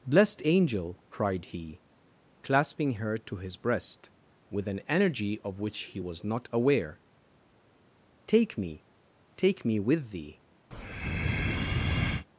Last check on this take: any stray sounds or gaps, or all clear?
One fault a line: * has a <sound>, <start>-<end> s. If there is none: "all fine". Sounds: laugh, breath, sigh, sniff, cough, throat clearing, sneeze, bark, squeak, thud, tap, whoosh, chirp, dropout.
* has a breath, 10.7-12.3 s